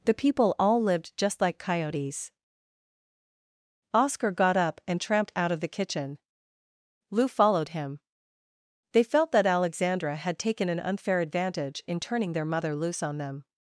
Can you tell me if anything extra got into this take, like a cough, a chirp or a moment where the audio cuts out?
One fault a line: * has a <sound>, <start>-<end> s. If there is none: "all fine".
all fine